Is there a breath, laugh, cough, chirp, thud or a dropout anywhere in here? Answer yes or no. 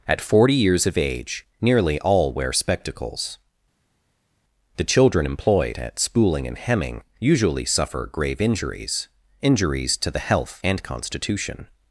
no